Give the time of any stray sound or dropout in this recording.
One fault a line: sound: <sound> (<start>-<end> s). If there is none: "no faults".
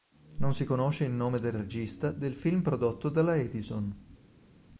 no faults